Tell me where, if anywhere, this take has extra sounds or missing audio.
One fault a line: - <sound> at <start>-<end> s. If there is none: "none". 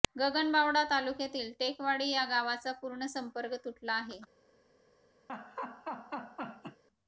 - laugh at 5.3-6.8 s